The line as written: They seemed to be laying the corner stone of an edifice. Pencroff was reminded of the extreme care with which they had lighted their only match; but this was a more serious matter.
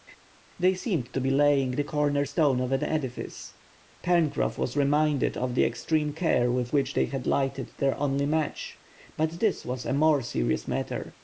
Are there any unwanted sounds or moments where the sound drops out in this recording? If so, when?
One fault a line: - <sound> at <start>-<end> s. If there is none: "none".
none